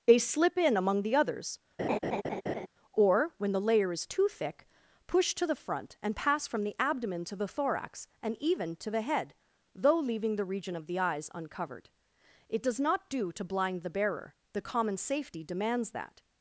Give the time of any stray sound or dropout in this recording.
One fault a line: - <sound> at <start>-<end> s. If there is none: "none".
- laugh at 1.8-2.7 s